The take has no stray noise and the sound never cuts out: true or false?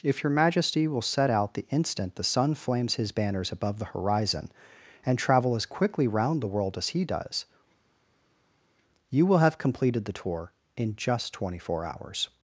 true